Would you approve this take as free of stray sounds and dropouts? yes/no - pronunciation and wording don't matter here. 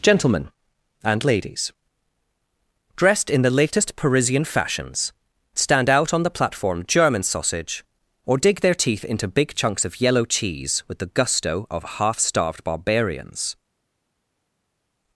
yes